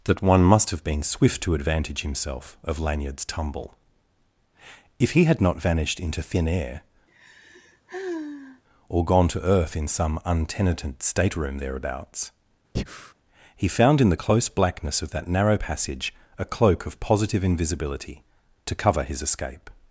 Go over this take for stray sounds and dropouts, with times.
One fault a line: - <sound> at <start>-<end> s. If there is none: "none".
- sigh at 7.1-8.6 s
- breath at 12.7-13.1 s